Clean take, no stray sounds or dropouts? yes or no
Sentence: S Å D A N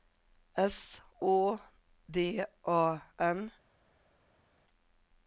yes